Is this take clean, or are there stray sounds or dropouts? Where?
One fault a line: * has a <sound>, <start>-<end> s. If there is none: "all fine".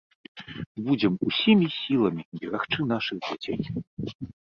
all fine